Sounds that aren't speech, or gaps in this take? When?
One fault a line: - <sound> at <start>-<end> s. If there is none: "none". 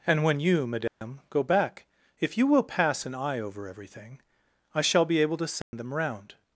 - dropout at 0.9-1.0 s
- dropout at 5.6-5.7 s